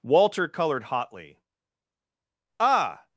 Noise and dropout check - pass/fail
pass